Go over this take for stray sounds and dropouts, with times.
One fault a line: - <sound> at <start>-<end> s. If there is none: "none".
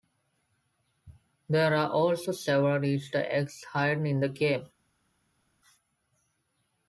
none